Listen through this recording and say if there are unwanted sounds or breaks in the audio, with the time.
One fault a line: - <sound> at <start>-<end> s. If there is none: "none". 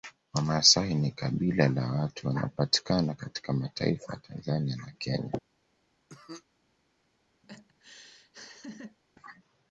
- cough at 6.1-6.4 s
- laugh at 7.4-9.0 s